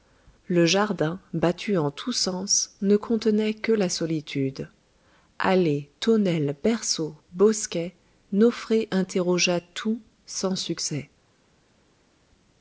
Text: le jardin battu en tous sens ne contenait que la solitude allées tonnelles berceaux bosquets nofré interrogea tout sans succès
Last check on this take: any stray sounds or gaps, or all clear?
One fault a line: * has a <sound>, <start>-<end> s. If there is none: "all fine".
all fine